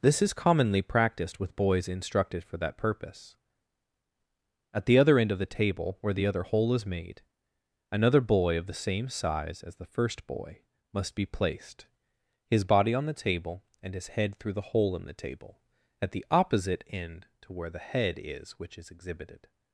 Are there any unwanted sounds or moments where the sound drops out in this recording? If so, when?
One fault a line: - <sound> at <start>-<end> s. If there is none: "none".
none